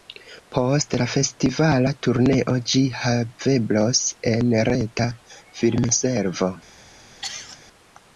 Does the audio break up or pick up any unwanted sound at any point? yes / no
yes